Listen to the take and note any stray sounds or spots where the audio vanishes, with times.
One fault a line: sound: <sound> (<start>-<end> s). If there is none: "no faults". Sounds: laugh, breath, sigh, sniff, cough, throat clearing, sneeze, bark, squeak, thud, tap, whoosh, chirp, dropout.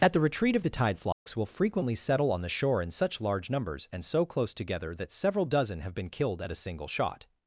sound: dropout (1.1-1.3 s)